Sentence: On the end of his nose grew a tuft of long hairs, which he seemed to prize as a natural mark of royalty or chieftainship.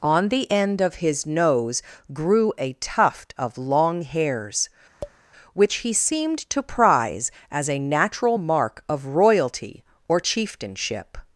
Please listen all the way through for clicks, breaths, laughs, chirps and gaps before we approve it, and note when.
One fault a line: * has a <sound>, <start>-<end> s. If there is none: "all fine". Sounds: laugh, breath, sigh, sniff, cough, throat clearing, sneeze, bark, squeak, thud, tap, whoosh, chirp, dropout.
* has a tap, 5.0-5.2 s